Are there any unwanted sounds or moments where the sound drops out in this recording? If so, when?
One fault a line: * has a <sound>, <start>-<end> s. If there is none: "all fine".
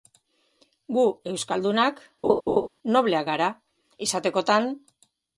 * has a laugh, 2.2-2.7 s